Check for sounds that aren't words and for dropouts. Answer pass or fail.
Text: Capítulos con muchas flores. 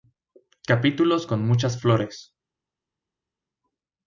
pass